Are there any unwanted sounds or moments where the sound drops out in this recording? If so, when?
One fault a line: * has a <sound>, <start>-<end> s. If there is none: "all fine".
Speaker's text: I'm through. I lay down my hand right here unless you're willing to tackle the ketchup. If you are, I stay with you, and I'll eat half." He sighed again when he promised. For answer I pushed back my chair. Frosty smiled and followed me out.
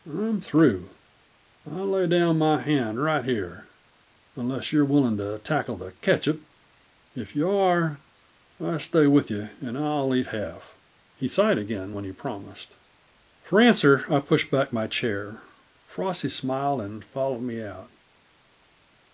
all fine